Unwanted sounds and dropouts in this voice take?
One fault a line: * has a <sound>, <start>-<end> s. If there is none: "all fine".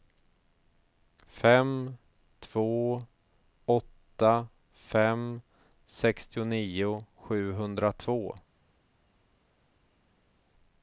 all fine